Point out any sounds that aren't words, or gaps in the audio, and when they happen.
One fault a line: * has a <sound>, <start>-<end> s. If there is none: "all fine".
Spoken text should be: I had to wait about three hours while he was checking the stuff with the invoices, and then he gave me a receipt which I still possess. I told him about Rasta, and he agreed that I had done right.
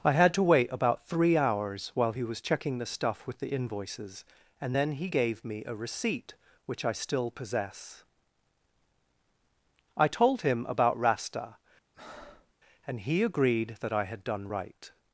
* has a breath, 11.9-12.5 s